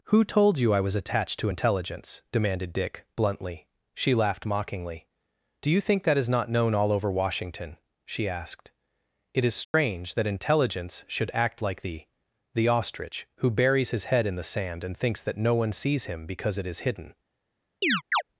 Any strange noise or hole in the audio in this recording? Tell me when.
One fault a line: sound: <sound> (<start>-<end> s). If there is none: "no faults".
sound: dropout (9.6-9.7 s)
sound: chirp (17.8-18.2 s)